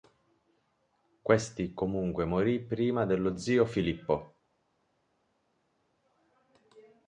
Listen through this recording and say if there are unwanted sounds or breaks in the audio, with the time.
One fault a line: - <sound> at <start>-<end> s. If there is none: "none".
none